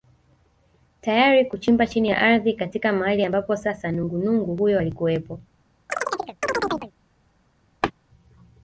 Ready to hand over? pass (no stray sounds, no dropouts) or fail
fail